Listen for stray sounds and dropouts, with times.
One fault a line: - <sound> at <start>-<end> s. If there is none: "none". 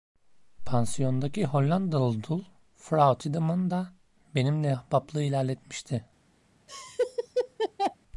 - laugh at 6.7-8.0 s